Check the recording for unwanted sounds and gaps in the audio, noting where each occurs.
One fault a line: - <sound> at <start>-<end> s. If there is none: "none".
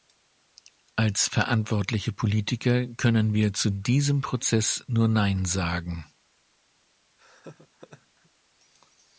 - laugh at 7.2-8.3 s